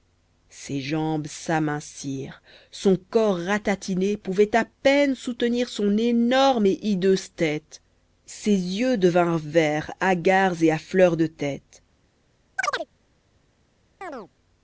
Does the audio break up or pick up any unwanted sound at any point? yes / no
yes